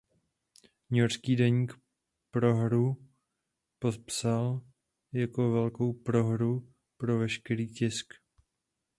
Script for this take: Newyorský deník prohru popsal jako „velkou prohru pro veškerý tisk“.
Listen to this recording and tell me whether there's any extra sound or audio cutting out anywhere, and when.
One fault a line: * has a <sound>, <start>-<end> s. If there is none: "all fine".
all fine